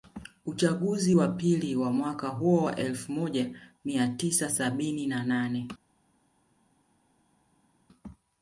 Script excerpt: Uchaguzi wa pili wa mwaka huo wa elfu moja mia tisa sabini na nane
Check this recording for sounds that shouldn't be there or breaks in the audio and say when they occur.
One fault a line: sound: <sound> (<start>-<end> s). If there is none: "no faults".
no faults